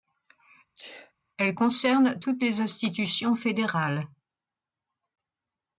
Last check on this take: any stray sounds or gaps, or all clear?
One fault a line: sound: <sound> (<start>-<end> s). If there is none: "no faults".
sound: sneeze (0.8-1.1 s)